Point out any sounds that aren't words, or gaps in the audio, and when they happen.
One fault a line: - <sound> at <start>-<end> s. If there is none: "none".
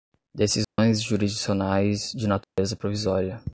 - dropout at 0.6-0.8 s
- dropout at 2.4-2.6 s